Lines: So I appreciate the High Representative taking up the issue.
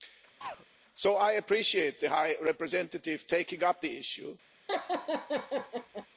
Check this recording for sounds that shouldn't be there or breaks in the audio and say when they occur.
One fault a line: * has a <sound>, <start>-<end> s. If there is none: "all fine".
* has a throat clearing, 0.4-0.7 s
* has a laugh, 4.7-6.1 s